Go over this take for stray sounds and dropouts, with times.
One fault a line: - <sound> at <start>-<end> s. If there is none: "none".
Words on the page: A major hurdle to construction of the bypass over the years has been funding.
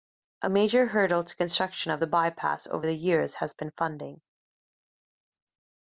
none